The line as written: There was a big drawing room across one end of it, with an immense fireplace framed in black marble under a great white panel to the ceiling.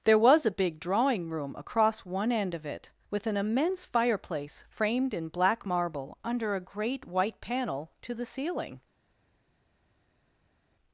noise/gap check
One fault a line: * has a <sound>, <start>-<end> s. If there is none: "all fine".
all fine